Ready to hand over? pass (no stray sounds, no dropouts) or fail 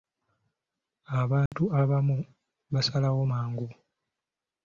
fail